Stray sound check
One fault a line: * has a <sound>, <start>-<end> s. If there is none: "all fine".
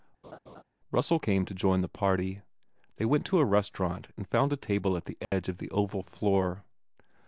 * has a laugh, 0.2-0.6 s
* has a dropout, 5.2-5.3 s